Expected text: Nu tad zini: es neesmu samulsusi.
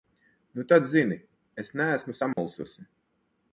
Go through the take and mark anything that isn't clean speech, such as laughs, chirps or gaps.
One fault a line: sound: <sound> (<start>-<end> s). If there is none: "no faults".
sound: dropout (2.3-2.4 s)